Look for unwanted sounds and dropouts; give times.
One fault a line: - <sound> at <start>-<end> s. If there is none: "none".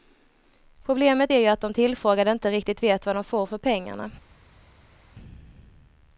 none